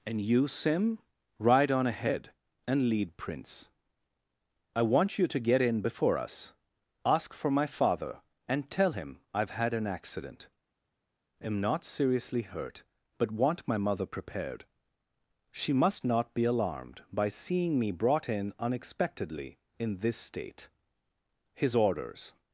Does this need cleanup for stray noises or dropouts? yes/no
no